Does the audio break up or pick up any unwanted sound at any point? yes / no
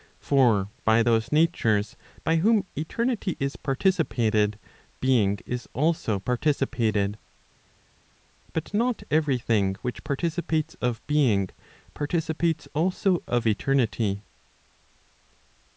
no